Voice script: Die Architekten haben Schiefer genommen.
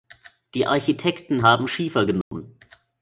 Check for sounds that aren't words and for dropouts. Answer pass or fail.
fail